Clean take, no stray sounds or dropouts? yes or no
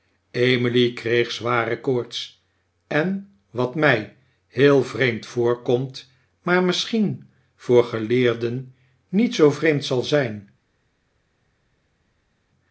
yes